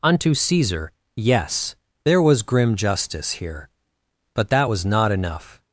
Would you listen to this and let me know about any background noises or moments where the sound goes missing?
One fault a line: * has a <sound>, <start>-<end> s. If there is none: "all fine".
all fine